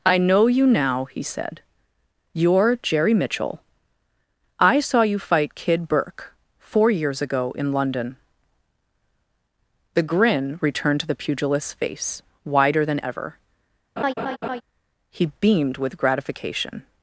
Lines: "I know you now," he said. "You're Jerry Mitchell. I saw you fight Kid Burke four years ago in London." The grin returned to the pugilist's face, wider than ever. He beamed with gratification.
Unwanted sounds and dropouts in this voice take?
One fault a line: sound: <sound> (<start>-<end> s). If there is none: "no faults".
sound: laugh (14.0-14.6 s)